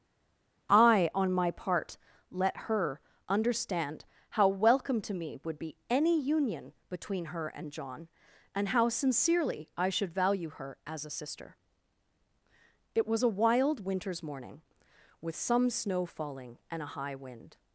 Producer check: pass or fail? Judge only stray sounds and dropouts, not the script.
pass